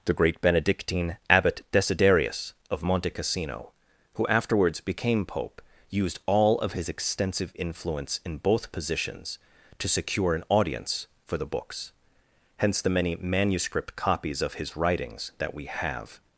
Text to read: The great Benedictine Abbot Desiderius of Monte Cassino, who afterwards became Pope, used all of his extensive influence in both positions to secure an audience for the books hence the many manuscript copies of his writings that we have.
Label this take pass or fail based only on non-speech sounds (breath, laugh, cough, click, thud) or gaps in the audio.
pass